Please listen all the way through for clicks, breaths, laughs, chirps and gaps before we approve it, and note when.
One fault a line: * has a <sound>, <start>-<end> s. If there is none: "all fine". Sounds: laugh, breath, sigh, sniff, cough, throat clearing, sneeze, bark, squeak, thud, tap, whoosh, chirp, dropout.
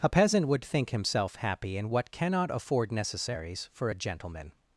all fine